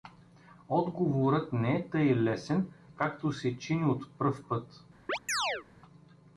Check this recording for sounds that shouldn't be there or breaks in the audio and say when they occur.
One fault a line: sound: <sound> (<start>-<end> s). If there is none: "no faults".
sound: chirp (5.1-5.7 s)